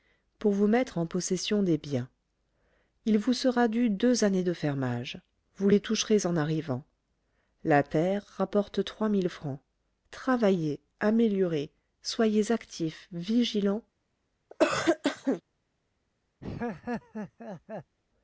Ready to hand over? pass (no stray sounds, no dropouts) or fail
fail